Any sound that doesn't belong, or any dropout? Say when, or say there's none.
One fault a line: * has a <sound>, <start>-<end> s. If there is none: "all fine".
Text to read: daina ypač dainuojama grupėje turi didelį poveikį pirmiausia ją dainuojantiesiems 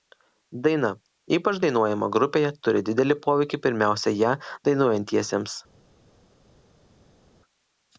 all fine